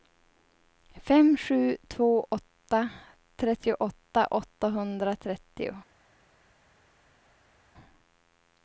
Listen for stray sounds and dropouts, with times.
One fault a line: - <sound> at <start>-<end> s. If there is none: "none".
none